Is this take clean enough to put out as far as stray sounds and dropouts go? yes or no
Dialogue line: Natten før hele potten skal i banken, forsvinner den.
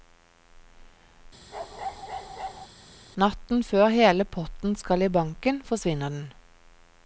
no